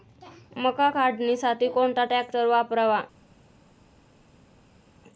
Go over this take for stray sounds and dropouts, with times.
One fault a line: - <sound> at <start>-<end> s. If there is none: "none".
none